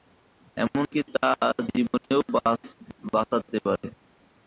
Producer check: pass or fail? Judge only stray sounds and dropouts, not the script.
fail